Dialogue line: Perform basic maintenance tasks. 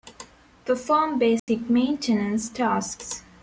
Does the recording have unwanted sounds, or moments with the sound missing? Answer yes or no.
yes